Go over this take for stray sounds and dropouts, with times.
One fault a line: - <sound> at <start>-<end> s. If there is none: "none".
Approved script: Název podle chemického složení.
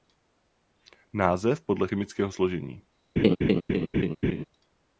- laugh at 3.2-4.5 s